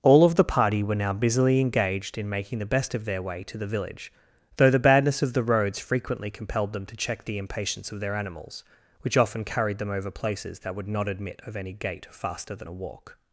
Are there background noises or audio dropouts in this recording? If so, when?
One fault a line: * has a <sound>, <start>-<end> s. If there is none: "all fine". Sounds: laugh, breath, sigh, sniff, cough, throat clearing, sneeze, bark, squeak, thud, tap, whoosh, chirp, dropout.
all fine